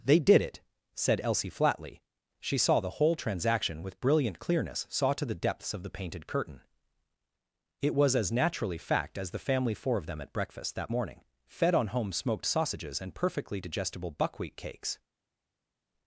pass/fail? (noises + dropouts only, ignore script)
pass